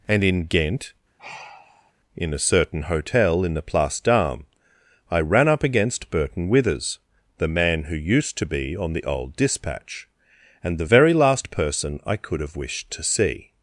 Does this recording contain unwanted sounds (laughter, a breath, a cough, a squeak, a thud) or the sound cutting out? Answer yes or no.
yes